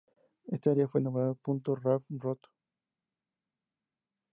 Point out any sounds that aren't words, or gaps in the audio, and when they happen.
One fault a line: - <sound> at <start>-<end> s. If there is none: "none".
none